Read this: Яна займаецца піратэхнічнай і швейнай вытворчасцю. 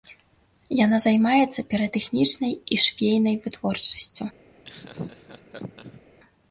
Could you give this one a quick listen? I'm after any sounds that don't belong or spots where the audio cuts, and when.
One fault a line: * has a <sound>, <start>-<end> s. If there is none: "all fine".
* has a laugh, 4.6-6.0 s